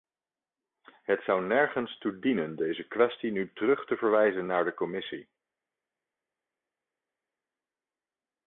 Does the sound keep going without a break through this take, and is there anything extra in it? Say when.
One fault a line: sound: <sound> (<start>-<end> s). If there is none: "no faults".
no faults